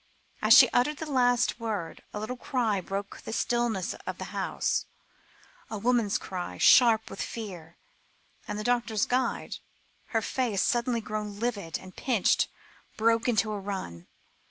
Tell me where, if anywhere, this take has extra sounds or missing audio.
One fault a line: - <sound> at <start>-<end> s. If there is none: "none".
none